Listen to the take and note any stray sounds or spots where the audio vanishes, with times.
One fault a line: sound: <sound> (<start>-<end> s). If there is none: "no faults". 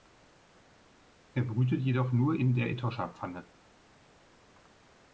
no faults